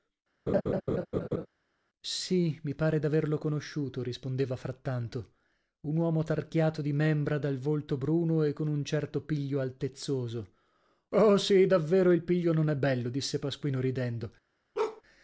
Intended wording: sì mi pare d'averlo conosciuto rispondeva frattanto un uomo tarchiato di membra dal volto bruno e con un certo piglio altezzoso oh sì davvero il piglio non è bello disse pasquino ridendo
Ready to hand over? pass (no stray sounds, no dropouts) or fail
fail